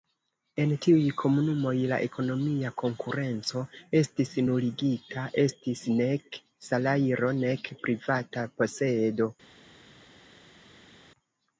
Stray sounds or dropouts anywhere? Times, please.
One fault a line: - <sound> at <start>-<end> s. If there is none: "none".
none